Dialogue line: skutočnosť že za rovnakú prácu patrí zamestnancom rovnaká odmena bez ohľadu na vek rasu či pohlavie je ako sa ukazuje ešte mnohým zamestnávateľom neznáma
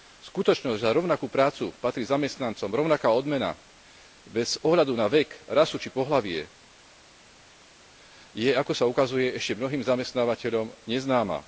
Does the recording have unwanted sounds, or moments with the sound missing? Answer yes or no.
no